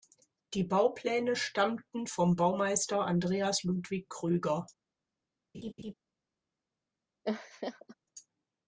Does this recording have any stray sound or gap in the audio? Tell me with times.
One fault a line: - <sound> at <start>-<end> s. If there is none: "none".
- laugh at 5.5-5.9 s
- laugh at 7.2-8.0 s